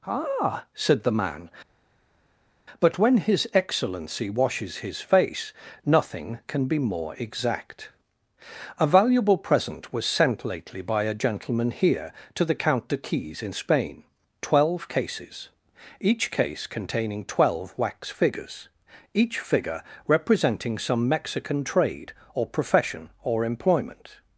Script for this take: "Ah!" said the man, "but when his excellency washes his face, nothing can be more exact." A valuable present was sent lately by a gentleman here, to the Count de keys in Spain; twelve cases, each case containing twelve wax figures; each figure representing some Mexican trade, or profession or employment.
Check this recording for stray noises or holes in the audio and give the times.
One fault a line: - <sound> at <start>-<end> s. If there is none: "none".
none